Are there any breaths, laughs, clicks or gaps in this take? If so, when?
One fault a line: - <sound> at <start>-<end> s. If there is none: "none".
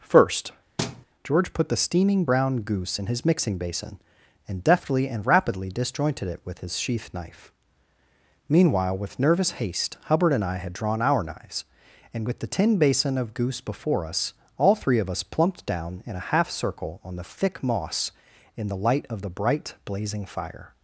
- thud at 0.8-1.1 s